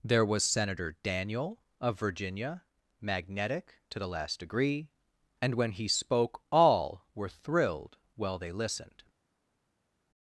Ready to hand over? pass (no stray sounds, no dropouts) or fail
pass